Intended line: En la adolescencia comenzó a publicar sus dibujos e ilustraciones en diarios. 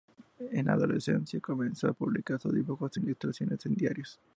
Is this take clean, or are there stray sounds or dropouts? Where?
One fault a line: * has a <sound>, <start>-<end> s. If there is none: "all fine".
all fine